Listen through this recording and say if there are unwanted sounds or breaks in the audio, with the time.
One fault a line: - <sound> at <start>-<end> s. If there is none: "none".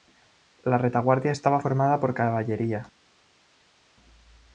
none